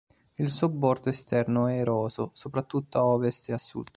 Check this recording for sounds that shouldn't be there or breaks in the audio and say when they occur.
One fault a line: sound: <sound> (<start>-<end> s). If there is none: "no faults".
no faults